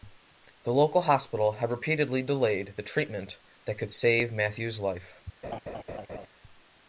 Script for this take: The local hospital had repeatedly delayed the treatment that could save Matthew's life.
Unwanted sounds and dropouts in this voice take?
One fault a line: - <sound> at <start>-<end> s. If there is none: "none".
- laugh at 5.4-6.3 s